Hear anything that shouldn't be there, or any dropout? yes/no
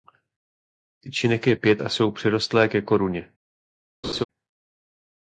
yes